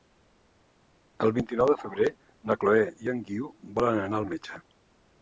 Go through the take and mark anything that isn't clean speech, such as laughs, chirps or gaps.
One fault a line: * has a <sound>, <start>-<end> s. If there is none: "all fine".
all fine